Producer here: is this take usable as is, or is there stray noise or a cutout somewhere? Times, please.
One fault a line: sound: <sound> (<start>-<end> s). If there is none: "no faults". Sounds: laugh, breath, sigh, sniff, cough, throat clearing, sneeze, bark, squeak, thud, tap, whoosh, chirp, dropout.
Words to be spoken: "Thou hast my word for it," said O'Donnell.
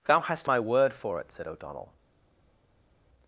no faults